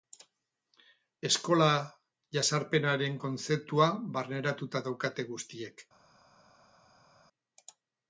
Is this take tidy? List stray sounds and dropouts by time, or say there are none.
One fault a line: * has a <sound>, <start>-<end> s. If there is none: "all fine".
all fine